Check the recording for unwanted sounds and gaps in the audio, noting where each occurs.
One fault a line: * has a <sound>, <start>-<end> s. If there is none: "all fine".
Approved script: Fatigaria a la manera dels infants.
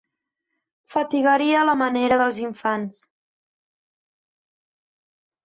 all fine